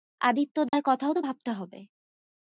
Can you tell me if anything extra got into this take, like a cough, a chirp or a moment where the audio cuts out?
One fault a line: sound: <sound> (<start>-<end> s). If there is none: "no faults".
sound: dropout (0.7-0.7 s)